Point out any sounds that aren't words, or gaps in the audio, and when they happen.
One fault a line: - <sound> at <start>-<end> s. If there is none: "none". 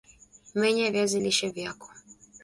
none